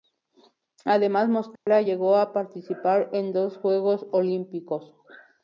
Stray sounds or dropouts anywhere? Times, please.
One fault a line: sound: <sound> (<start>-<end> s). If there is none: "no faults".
sound: dropout (1.6-1.7 s)